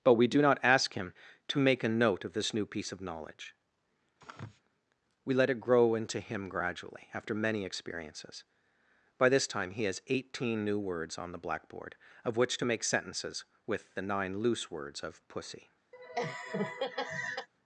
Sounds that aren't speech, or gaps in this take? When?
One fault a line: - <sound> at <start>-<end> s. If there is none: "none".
- sneeze at 4.2-4.6 s
- laugh at 15.9-17.5 s